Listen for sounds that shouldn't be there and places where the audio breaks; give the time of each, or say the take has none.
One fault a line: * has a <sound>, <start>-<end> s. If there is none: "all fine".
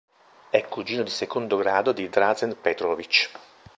all fine